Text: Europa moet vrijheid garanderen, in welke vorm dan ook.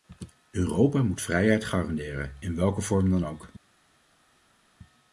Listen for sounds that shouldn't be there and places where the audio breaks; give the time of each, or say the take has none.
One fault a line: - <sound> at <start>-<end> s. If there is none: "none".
none